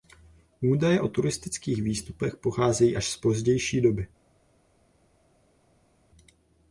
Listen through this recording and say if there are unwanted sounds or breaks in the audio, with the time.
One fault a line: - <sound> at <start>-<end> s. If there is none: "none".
none